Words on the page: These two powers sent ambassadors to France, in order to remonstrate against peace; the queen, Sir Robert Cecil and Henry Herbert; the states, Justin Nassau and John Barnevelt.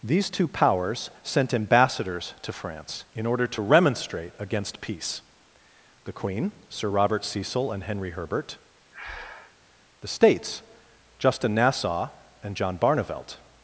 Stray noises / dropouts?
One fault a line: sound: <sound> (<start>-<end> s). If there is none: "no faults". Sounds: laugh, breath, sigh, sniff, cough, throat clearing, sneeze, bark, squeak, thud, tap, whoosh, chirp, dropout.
sound: breath (8.9-9.6 s)